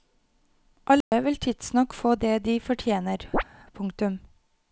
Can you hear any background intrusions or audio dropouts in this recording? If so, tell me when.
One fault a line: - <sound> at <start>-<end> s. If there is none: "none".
- dropout at 1.0-1.1 s
- chirp at 3.3-3.4 s